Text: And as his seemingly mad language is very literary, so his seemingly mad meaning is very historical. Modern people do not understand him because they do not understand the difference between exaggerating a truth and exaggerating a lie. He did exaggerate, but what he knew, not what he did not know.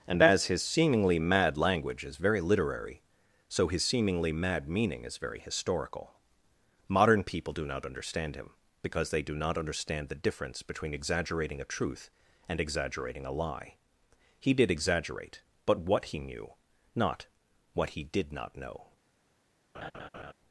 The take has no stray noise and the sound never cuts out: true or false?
false